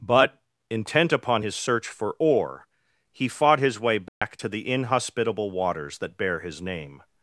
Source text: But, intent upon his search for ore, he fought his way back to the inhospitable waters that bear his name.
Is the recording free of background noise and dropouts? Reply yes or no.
no